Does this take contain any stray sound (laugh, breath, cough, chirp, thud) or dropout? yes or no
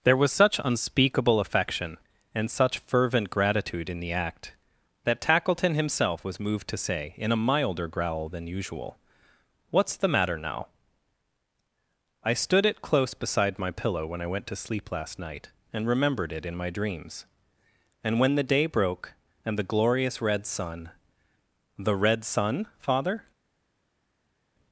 no